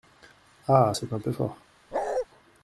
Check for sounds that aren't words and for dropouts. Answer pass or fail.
fail